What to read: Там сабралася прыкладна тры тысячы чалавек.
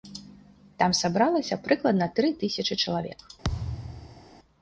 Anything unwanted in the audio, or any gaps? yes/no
yes